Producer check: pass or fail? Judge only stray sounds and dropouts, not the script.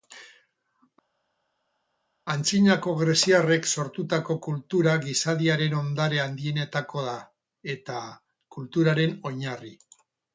pass